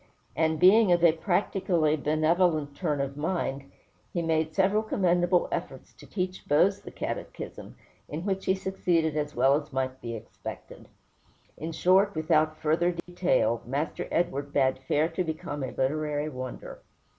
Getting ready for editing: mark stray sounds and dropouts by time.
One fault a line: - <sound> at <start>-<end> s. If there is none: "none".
- dropout at 13.0-13.1 s